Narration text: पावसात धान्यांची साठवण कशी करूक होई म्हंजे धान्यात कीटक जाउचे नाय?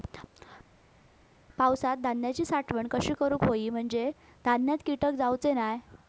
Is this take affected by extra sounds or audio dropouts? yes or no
no